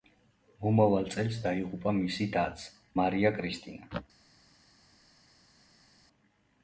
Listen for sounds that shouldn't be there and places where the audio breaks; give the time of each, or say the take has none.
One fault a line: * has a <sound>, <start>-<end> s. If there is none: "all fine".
all fine